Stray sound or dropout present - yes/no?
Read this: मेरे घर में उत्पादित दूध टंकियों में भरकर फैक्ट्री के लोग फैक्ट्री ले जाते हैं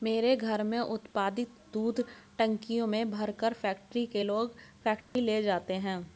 yes